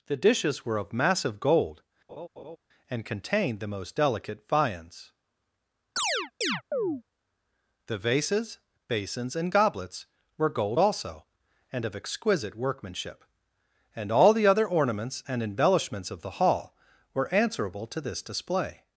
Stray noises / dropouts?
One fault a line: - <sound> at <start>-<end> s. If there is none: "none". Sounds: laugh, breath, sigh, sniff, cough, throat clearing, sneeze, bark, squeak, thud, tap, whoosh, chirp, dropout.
- laugh at 2.1-2.6 s
- chirp at 6.0-7.0 s